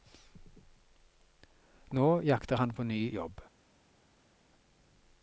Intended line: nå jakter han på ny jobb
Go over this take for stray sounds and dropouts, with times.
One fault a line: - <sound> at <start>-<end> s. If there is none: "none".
none